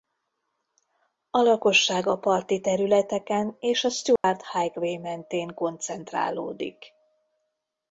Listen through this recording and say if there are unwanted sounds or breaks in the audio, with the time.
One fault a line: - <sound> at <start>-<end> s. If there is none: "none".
- dropout at 4.2-4.2 s